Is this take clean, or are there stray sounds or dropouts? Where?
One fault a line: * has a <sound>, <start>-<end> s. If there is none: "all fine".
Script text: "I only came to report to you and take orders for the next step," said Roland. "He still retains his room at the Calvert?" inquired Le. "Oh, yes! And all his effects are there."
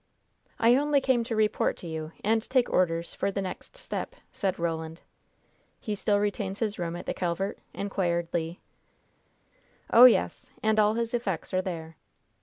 all fine